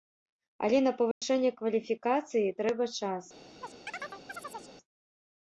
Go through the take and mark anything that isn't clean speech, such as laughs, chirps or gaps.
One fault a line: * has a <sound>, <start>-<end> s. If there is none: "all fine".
* has a dropout, 1.1-1.2 s
* has a chirp, 3.6-4.8 s